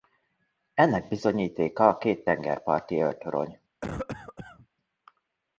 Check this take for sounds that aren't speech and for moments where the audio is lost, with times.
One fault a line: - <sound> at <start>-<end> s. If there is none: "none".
- cough at 3.8-4.7 s